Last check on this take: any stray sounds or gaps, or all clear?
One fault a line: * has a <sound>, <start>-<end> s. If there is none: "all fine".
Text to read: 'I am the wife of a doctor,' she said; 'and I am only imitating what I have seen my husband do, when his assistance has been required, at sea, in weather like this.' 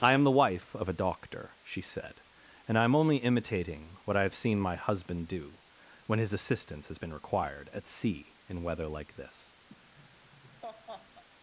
* has a laugh, 9.7-11.2 s